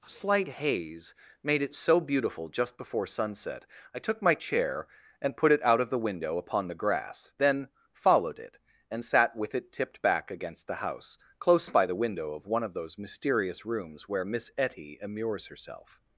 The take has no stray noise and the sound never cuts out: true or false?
true